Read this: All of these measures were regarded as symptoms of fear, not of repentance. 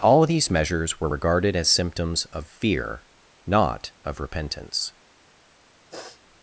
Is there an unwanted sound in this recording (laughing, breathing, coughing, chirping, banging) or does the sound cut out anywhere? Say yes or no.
yes